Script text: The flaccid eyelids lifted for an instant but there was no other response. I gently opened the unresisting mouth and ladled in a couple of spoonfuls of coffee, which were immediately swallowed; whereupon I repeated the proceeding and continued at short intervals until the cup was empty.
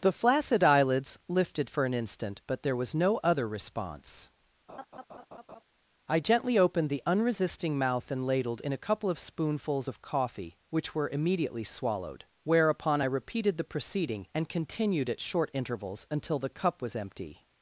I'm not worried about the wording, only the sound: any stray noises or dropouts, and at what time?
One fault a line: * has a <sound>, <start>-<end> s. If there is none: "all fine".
* has a laugh, 4.7-5.6 s